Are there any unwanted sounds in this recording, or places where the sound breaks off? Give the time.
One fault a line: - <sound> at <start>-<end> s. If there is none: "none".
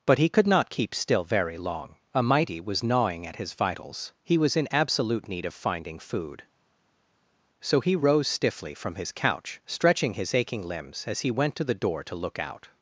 none